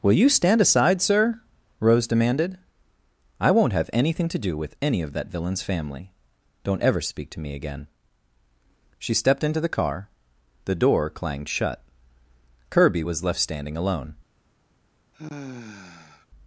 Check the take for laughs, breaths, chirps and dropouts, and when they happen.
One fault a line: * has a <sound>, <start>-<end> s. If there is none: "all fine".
* has a sigh, 15.1-16.3 s